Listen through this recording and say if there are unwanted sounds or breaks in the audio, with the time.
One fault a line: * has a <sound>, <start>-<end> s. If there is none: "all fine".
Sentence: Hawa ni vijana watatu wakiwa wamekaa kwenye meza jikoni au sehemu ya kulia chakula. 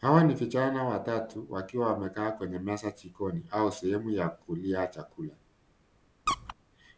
* has a squeak, 6.3-6.5 s